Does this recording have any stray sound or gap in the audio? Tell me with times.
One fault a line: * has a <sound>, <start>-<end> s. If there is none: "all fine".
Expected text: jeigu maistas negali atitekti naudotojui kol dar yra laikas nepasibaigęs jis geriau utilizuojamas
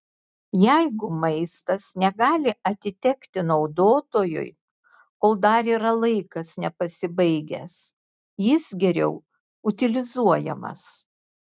all fine